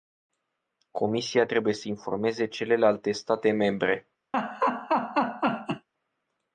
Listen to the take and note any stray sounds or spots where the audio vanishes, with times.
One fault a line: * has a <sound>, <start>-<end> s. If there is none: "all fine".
* has a laugh, 4.3-5.9 s